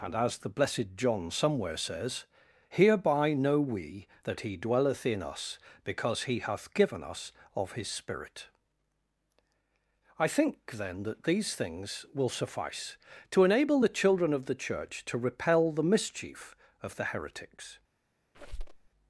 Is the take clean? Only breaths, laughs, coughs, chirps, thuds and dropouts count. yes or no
no